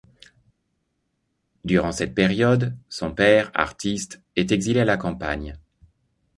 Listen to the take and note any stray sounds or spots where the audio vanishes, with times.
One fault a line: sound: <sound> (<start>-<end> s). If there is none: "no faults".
no faults